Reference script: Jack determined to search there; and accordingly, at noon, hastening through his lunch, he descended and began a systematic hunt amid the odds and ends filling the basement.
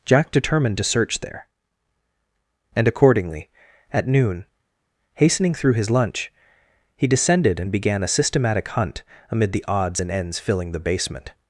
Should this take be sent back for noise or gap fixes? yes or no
no